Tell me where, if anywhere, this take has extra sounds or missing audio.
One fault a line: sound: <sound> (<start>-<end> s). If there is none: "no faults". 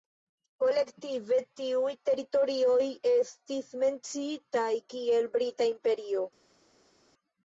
no faults